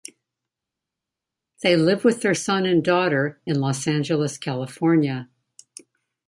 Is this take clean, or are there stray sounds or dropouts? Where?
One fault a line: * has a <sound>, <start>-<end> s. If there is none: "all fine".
all fine